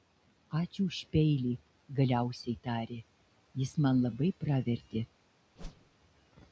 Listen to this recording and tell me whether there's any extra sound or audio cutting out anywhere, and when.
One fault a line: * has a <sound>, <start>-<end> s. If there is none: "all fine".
* has a whoosh, 5.6-5.9 s